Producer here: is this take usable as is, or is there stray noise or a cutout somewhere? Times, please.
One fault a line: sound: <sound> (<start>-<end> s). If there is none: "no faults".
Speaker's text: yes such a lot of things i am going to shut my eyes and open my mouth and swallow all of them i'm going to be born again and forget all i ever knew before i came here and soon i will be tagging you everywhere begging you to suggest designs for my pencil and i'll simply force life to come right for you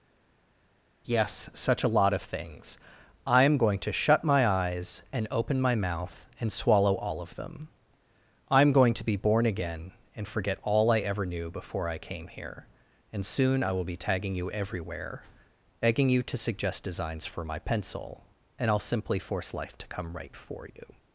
no faults